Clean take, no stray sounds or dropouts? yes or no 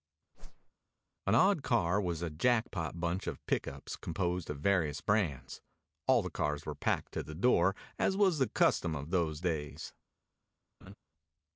no